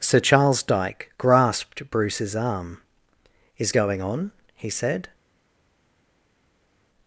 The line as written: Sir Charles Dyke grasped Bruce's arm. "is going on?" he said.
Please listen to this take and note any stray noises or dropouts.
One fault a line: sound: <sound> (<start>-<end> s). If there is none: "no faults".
no faults